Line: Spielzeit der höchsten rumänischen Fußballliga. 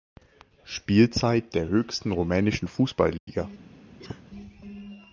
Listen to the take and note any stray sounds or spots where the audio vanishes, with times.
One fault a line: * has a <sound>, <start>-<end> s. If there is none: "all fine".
* has a dropout, 3.2-3.3 s
* has a cough, 4.0-4.2 s